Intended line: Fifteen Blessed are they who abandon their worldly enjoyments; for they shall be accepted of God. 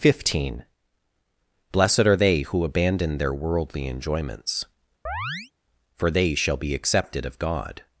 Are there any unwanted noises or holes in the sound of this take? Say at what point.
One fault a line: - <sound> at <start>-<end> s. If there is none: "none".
- chirp at 5.1-5.5 s